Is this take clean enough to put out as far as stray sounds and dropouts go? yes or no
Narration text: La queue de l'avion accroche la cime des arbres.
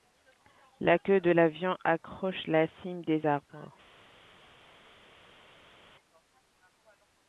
yes